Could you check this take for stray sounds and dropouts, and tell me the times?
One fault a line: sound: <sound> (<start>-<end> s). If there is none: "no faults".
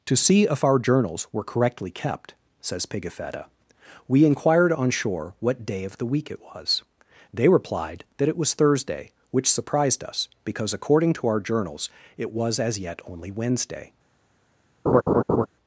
sound: laugh (14.9-15.5 s)